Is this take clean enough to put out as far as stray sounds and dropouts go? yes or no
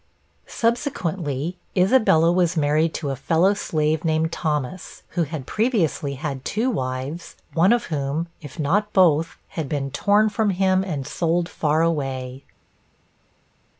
yes